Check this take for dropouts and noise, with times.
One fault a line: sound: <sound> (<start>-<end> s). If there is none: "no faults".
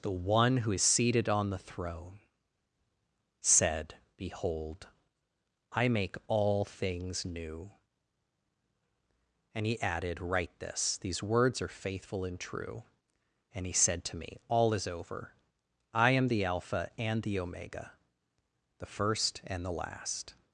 no faults